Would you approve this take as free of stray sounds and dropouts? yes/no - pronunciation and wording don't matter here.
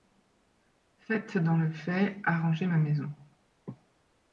yes